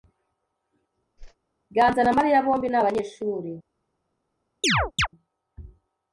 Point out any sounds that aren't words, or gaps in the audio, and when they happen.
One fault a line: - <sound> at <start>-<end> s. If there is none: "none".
- whoosh at 1.2-1.4 s
- chirp at 4.6-5.1 s